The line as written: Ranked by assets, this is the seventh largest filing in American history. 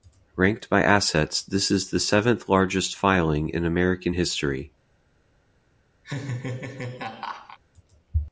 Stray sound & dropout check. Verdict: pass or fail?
fail